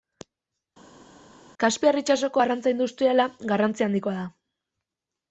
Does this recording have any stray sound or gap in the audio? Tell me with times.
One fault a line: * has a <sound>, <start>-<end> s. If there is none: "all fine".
all fine